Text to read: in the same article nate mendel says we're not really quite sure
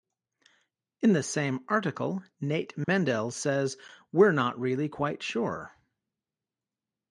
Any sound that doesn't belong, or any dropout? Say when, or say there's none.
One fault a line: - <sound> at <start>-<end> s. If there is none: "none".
- dropout at 2.8-2.9 s